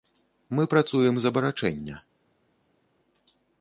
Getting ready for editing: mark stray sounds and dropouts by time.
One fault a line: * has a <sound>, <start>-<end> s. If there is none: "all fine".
all fine